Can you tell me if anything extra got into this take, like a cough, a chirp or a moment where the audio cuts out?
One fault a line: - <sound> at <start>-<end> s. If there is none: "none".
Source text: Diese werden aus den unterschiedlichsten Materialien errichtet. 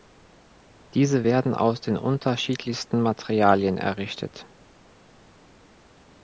none